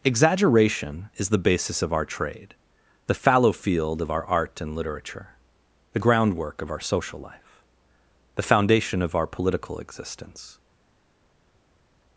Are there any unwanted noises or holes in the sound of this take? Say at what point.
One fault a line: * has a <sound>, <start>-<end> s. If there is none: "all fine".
all fine